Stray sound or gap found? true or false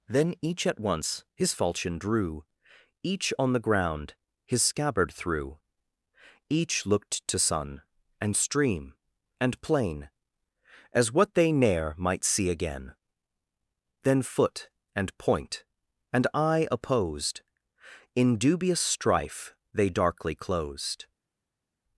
false